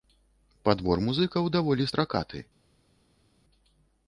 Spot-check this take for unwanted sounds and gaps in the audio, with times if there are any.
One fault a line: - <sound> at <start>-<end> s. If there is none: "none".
none